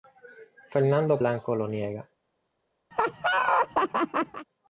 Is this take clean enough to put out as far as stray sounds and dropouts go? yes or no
no